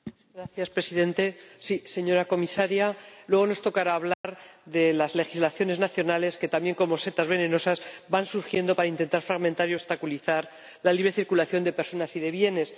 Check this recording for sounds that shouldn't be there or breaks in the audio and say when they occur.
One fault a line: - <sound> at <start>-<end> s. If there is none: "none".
- dropout at 4.1-4.2 s